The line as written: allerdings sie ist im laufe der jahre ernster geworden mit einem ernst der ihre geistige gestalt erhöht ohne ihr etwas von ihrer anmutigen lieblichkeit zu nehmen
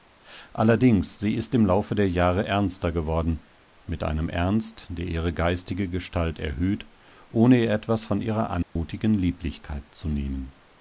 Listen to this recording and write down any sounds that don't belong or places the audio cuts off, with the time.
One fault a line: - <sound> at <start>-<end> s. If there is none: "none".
- dropout at 8.6-8.8 s